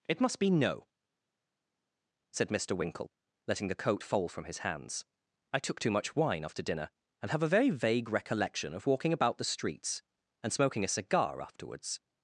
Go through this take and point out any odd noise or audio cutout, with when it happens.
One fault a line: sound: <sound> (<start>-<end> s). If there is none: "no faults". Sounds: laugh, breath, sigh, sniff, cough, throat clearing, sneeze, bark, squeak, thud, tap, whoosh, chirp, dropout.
no faults